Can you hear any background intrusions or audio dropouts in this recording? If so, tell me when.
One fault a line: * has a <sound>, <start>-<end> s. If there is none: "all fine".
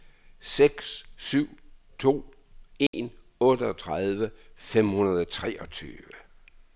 * has a dropout, 2.9-2.9 s